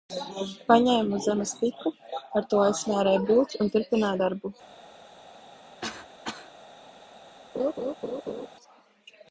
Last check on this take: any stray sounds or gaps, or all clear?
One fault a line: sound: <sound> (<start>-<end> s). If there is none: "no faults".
sound: cough (5.8-6.5 s)
sound: laugh (7.5-8.5 s)